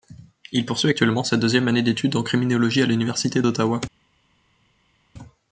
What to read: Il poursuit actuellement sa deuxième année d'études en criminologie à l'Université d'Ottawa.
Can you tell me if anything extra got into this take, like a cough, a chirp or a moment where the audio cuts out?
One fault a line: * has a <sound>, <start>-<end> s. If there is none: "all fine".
all fine